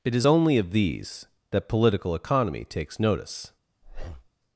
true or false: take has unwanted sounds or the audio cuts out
true